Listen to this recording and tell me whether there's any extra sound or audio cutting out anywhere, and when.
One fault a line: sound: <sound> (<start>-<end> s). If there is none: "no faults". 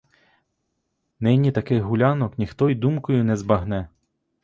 no faults